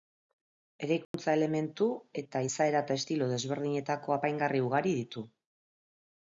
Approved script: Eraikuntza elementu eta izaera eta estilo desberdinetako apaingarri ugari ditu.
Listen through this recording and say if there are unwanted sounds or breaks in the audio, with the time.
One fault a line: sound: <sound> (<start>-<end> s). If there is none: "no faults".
sound: dropout (1.0-1.1 s)